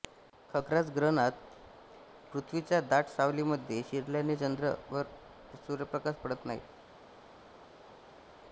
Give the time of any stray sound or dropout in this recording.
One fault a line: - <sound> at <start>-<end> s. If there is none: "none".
none